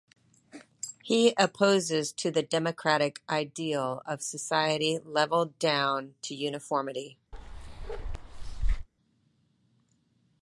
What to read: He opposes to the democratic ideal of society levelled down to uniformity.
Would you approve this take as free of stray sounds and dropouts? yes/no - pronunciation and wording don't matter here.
no